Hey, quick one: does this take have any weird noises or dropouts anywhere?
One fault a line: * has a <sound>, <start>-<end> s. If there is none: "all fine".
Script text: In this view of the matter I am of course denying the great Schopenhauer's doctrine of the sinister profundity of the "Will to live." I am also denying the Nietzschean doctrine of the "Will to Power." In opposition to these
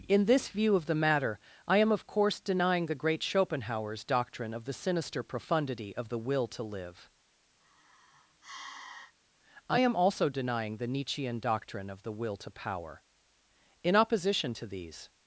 * has a sigh, 7.6-9.1 s